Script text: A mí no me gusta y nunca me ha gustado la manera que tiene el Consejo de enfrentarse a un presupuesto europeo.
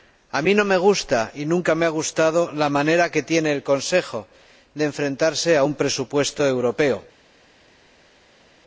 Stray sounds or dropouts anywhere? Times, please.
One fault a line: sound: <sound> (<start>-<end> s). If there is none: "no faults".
no faults